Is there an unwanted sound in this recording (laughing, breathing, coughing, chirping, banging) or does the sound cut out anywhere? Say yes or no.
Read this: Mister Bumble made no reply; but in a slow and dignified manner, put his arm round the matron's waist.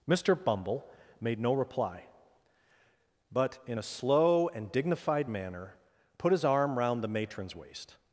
no